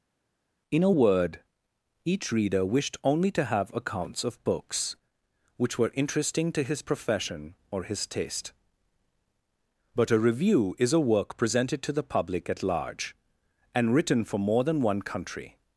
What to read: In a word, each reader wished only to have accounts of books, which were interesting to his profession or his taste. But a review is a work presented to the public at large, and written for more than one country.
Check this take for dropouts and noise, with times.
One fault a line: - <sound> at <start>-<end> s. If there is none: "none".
none